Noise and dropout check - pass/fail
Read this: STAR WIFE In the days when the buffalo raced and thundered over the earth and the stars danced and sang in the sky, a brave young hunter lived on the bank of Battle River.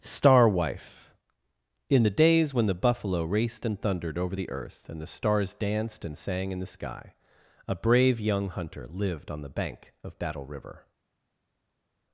pass